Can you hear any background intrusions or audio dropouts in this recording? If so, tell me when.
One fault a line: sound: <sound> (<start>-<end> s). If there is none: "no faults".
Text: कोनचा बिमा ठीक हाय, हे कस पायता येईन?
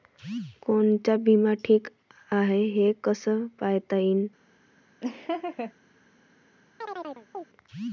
sound: laugh (5.0-5.7 s)
sound: chirp (6.8-7.5 s)